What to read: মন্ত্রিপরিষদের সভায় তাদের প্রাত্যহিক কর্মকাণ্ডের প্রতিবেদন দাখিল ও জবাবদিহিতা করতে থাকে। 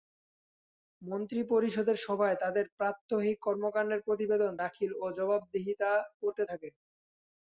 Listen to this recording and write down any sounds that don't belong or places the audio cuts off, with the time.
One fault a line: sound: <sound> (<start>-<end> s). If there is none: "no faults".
no faults